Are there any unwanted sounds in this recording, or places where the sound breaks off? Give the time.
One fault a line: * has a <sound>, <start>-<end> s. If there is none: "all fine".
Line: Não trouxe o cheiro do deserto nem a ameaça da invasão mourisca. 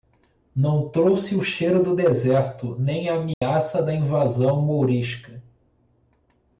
* has a dropout, 3.3-3.4 s